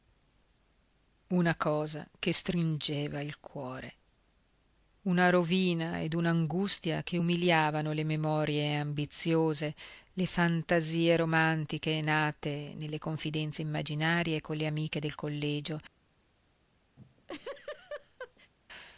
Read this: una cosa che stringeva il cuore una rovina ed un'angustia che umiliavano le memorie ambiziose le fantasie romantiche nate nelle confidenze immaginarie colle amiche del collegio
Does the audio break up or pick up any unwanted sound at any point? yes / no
yes